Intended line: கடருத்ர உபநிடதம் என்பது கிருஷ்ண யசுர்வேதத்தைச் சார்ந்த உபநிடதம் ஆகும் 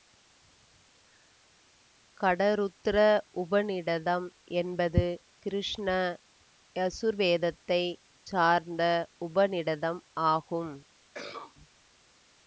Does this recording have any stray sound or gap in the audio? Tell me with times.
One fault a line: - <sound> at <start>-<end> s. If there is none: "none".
- cough at 11.1-11.6 s